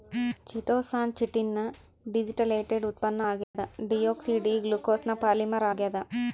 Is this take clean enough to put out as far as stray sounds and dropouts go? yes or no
no